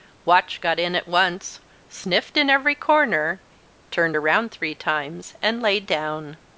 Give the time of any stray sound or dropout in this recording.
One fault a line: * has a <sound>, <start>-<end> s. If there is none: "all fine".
all fine